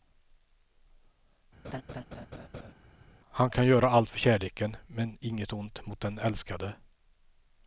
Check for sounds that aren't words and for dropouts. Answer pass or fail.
fail